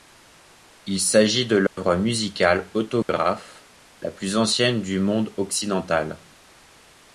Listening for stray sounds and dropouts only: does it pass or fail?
fail